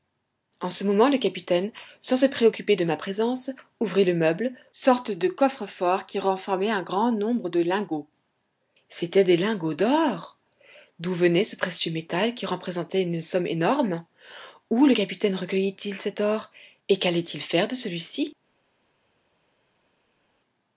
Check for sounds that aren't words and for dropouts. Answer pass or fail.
pass